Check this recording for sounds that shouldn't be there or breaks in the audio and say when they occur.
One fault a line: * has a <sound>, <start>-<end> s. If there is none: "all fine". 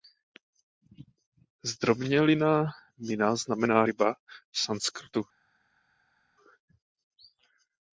all fine